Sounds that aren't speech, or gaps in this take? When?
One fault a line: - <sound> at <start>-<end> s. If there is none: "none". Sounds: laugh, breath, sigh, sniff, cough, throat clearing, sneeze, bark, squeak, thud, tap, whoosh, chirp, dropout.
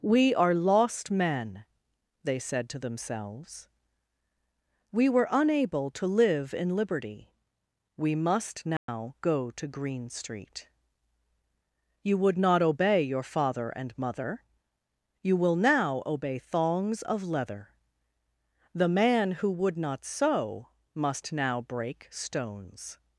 - dropout at 8.8-8.9 s